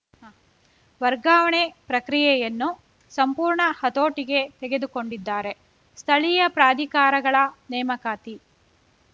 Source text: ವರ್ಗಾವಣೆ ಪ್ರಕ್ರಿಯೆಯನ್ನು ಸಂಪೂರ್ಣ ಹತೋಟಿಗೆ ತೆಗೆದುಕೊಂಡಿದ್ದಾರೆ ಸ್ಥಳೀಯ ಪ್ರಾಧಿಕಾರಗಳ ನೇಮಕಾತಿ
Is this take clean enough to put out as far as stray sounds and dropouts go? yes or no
yes